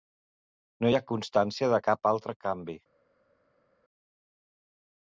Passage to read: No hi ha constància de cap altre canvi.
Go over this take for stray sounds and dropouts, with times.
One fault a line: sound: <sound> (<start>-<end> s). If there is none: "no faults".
no faults